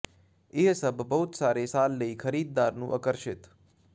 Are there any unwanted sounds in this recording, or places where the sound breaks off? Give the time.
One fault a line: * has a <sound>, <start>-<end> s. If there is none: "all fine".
all fine